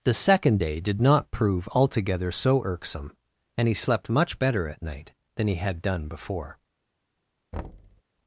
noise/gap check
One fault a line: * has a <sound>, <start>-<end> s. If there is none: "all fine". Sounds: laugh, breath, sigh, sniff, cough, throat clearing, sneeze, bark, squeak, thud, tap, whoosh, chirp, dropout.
* has a thud, 7.5-8.0 s